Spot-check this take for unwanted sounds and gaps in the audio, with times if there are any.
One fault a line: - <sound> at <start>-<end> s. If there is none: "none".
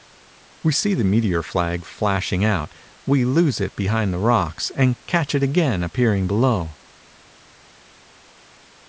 none